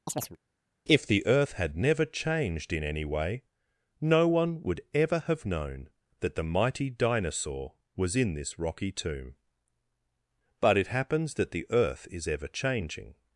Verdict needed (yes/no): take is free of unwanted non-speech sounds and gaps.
no